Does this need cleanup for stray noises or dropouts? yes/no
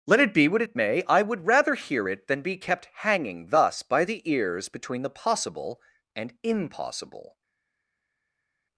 no